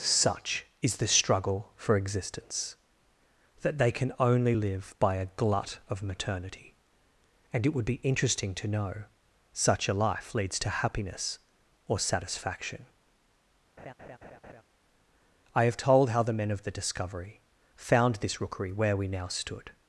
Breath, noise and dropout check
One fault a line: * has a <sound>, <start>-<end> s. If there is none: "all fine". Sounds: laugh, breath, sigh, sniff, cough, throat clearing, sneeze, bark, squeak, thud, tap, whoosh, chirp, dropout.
* has a laugh, 13.8-14.6 s